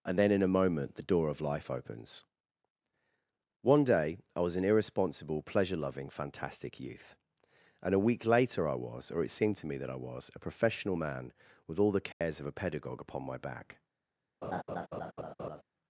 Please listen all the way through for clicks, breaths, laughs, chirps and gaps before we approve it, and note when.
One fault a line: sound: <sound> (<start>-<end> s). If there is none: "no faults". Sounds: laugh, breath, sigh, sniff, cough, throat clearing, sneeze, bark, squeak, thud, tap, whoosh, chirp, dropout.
sound: dropout (12.1-12.2 s)
sound: laugh (14.4-15.6 s)